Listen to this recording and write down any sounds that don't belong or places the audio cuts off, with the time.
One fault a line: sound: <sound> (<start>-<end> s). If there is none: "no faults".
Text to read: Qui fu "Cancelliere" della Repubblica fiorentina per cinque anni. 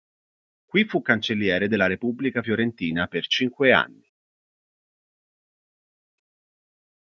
no faults